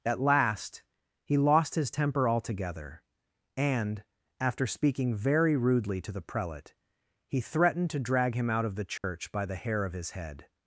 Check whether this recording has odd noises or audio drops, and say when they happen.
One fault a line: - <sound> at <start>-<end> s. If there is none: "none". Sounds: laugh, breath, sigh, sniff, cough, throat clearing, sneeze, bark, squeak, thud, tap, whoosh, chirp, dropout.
- dropout at 9.0-9.0 s